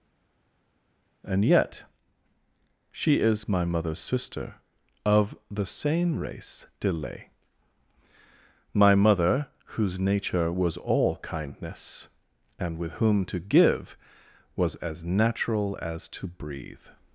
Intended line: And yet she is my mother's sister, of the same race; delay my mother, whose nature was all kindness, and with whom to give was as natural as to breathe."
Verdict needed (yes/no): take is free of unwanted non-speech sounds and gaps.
yes